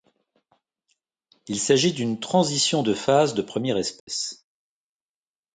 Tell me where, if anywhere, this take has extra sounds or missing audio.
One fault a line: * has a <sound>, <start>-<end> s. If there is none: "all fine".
* has a dropout, 4.0-4.1 s